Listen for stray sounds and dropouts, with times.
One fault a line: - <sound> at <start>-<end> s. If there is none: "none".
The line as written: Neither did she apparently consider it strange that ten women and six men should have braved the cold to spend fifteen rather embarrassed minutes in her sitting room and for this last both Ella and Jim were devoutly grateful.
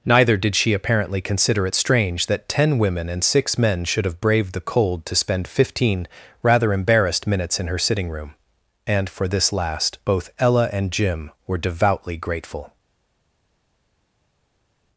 none